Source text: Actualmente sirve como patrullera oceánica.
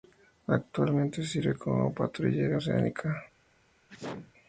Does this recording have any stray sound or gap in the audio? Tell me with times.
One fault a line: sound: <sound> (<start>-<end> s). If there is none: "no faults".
sound: sneeze (3.9-4.3 s)